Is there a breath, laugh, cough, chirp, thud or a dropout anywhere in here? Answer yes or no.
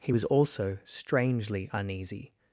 no